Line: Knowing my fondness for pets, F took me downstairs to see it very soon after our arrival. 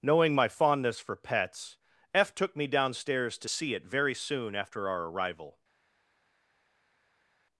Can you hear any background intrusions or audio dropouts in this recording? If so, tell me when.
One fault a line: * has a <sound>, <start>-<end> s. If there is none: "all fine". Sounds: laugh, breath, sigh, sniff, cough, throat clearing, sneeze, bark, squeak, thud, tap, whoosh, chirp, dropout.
all fine